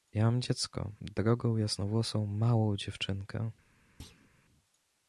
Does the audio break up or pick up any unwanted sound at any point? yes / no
yes